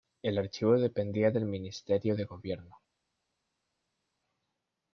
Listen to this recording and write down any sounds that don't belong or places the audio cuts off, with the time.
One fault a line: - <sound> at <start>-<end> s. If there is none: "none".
none